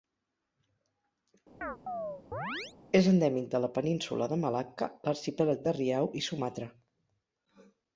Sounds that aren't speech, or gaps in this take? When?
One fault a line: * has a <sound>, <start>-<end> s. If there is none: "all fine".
* has a chirp, 1.6-2.8 s